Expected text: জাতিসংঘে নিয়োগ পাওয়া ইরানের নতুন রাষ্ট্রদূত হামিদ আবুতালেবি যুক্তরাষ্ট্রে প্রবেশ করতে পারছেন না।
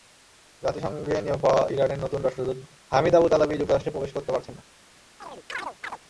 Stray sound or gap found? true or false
true